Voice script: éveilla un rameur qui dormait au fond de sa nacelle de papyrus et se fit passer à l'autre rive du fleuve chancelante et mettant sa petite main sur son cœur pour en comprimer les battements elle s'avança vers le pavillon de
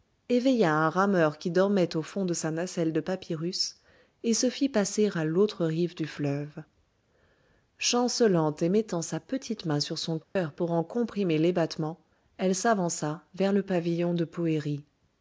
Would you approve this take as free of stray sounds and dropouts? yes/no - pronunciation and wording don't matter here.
no